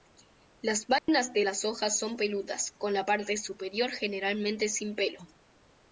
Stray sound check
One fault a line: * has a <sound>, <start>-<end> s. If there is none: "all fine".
* has a dropout, 1.0-1.1 s